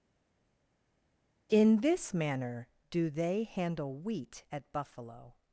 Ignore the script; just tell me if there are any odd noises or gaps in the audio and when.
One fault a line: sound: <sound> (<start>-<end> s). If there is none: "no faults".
no faults